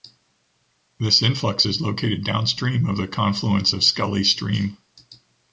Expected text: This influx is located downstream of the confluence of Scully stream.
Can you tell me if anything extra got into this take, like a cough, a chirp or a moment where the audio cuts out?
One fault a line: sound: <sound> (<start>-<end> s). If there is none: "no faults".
no faults